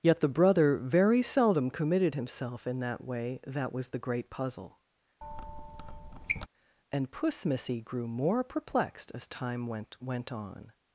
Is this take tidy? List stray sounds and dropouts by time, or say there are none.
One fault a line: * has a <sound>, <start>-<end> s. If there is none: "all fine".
* has a squeak, 5.2-6.5 s